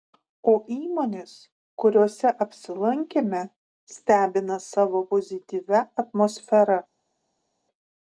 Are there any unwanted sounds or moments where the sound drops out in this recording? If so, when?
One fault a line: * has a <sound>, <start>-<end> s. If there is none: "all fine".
all fine